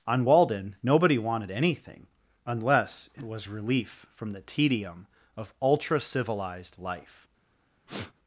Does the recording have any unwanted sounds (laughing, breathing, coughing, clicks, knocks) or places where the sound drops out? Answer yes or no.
yes